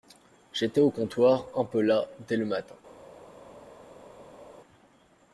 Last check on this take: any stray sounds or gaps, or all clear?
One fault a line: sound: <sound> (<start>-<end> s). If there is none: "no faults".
no faults